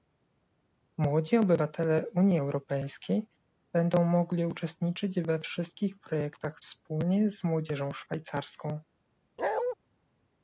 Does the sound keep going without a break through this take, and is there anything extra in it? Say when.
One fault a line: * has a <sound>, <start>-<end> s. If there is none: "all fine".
* has a bark, 9.4-9.8 s